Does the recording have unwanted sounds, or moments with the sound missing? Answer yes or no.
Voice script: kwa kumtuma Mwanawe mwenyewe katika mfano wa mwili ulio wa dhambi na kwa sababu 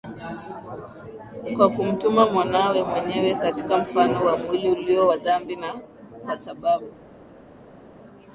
no